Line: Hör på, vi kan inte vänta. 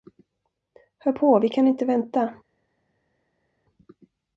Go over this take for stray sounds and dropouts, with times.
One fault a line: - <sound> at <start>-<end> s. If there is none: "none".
none